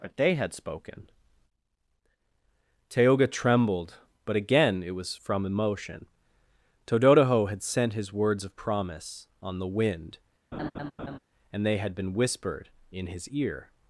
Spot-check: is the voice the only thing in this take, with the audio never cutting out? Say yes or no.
no